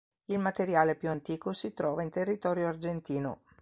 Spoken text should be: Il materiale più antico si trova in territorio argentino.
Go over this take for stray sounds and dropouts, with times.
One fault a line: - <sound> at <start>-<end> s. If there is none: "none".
none